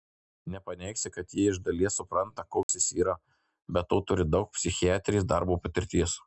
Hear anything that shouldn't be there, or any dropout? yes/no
yes